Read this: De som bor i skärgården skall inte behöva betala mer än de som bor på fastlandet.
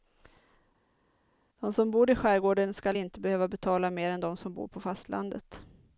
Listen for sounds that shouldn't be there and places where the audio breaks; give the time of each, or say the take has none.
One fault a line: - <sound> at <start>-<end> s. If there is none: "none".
none